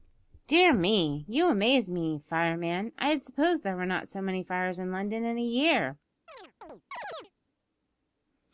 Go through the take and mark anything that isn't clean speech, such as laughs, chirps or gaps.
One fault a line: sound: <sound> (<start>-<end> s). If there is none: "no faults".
sound: chirp (6.3-7.3 s)